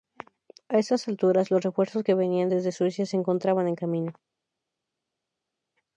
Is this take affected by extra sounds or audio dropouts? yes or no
no